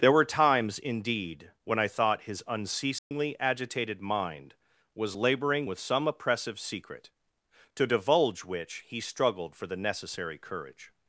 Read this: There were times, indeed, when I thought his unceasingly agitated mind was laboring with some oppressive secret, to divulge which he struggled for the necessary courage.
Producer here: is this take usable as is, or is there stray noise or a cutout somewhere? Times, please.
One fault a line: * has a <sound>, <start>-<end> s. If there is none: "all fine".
* has a dropout, 3.0-3.1 s